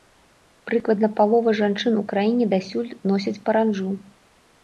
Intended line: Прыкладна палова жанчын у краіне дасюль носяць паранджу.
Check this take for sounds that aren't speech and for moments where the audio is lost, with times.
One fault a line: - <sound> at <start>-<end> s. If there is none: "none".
none